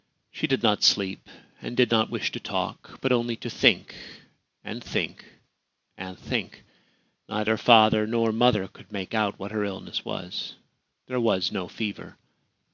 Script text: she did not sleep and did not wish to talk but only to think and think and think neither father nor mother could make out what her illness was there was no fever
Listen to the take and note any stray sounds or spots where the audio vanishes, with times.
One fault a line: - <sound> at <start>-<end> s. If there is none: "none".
none